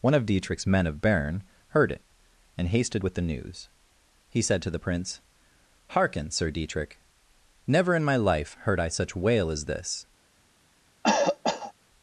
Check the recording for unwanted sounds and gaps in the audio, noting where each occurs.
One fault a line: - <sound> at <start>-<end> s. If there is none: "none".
- cough at 11.0-11.7 s